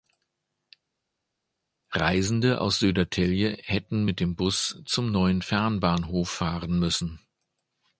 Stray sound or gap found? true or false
false